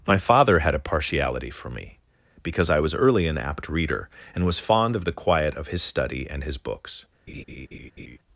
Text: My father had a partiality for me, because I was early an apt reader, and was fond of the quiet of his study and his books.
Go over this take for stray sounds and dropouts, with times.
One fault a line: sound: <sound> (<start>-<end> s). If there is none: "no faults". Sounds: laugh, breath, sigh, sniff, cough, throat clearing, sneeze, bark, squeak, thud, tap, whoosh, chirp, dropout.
sound: laugh (7.3-8.2 s)